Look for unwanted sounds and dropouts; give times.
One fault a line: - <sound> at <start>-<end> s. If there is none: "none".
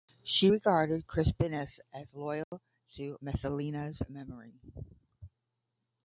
- dropout at 2.4-2.5 s